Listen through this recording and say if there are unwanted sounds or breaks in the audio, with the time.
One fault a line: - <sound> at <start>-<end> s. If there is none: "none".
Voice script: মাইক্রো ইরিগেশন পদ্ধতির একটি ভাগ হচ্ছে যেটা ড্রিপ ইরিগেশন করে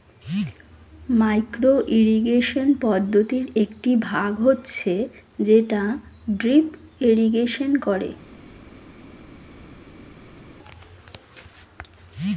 none